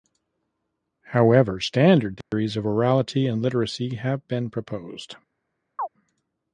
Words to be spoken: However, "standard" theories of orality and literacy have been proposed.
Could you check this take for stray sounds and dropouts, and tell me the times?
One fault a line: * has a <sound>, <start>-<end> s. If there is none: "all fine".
* has a dropout, 2.2-2.3 s
* has a chirp, 5.8-5.9 s